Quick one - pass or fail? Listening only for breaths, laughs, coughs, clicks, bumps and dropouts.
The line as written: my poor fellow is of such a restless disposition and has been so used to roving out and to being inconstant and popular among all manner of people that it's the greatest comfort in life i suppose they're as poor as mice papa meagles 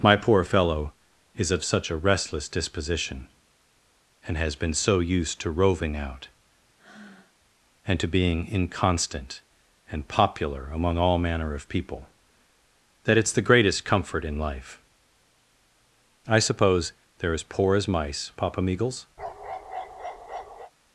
fail